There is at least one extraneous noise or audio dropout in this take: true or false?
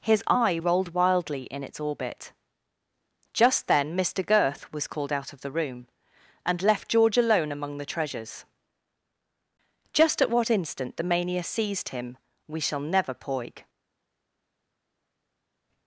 false